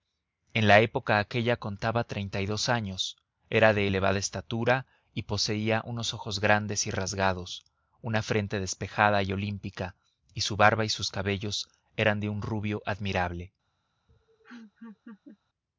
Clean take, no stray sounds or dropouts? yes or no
no